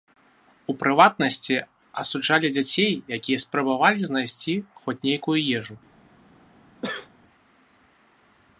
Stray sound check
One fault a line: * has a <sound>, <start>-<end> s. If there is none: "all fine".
* has a sneeze, 6.8-7.1 s